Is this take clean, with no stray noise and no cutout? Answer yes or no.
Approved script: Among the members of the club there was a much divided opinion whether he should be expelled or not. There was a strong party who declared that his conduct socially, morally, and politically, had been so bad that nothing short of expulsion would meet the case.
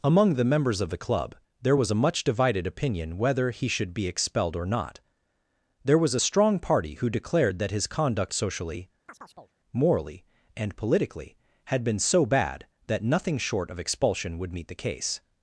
no